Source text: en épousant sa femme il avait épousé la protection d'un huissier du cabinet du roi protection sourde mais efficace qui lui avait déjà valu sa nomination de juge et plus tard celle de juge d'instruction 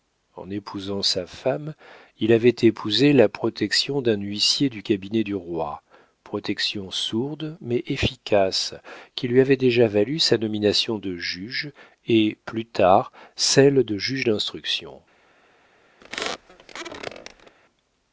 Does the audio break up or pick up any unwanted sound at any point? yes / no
yes